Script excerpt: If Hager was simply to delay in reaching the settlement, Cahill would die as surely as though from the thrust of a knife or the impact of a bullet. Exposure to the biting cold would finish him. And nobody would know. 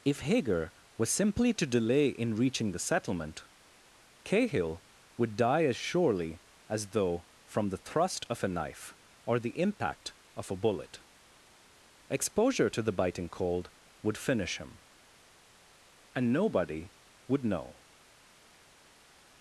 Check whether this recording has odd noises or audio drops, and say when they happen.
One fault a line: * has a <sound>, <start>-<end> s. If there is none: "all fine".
all fine